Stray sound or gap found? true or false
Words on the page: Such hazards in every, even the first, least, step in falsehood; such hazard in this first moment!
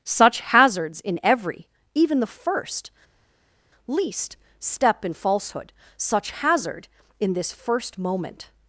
false